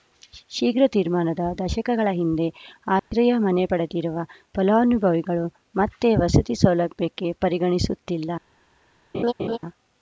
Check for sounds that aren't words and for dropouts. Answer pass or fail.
fail